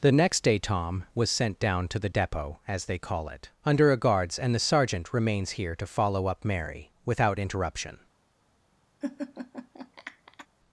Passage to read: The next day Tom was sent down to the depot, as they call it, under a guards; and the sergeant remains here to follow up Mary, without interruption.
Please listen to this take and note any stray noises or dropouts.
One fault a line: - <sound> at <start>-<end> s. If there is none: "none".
- laugh at 9.0-10.5 s